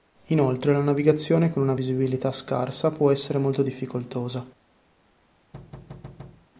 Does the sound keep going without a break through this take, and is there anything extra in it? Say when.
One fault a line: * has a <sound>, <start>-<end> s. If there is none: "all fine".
* has a thud, 5.5-6.5 s